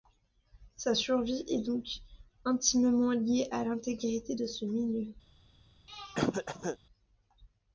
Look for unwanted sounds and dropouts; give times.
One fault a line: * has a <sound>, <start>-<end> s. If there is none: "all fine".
* has a throat clearing, 5.9-6.8 s